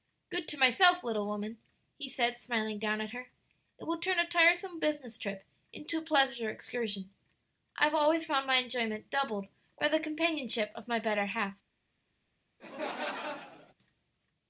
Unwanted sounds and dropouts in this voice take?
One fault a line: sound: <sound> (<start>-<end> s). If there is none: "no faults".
sound: laugh (12.6-13.7 s)